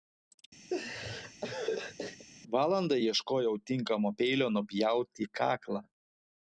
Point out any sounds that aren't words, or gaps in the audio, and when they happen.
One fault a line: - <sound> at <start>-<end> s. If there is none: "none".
- laugh at 0.7-2.3 s